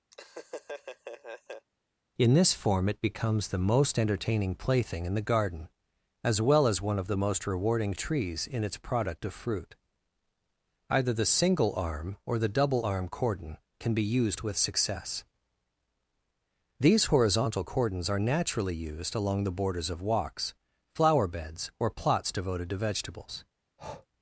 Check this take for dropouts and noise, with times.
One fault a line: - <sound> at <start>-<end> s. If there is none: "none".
- laugh at 0.1-1.7 s
- breath at 23.8-24.1 s